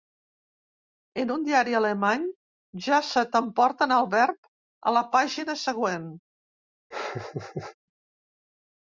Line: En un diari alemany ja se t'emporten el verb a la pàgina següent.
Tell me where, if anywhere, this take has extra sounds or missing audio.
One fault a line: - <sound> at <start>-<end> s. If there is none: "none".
- laugh at 6.9-7.8 s